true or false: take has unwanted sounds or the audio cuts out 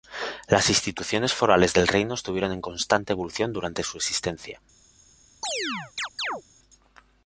true